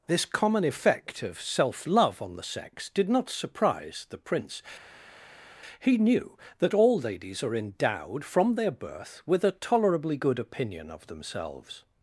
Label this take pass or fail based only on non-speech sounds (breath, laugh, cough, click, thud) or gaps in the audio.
pass